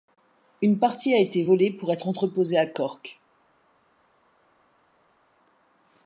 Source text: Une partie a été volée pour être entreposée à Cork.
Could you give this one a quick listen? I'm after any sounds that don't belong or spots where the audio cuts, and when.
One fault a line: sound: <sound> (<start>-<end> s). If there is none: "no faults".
no faults